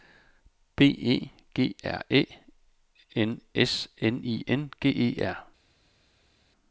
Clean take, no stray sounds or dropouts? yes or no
yes